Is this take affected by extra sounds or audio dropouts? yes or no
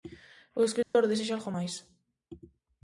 yes